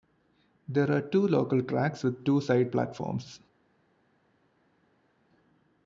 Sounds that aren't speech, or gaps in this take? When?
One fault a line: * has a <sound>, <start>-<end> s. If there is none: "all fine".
all fine